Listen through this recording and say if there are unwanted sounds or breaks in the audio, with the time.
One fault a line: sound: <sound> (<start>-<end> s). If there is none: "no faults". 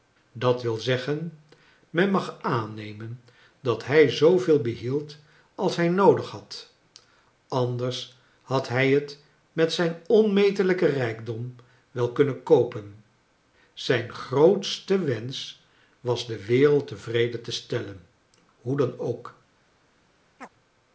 sound: chirp (20.4-20.5 s)